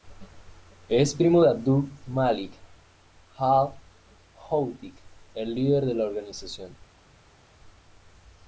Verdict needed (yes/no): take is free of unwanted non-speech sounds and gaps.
yes